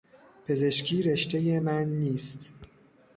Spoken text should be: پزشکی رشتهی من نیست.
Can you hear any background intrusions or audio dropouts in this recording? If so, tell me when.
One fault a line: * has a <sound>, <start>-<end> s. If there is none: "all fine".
all fine